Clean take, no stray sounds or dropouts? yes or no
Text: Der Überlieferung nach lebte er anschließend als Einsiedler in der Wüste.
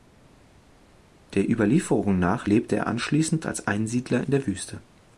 yes